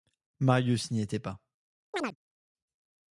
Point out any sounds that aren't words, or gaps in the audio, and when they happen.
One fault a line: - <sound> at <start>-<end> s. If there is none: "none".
- chirp at 1.9-2.2 s